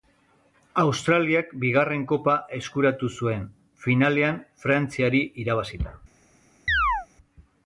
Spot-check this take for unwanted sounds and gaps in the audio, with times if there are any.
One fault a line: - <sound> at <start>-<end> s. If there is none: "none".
- chirp at 6.7-7.1 s